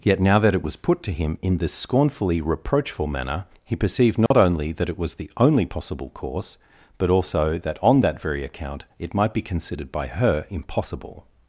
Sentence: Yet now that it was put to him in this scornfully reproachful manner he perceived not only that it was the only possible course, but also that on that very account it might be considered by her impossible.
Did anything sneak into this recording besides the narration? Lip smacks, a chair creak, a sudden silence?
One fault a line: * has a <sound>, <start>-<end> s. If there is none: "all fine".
* has a dropout, 4.3-4.3 s